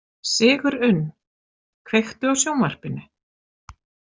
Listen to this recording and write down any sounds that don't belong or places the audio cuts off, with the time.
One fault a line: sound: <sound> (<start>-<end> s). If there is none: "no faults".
no faults